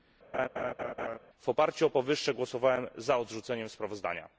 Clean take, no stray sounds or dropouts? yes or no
no